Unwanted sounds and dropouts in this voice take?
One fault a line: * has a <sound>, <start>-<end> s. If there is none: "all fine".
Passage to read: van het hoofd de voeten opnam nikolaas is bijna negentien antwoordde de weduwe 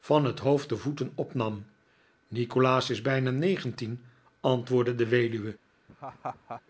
* has a laugh, 5.9-6.6 s